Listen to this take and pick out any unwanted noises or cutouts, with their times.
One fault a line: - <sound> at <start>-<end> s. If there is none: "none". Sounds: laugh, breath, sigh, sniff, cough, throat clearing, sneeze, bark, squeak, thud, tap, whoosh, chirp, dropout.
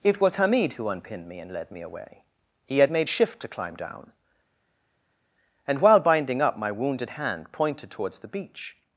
none